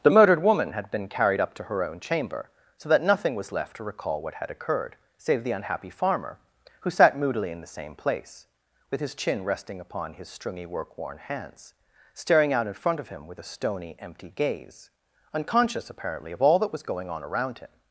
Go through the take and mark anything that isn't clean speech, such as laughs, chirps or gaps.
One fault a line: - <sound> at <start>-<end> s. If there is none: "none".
none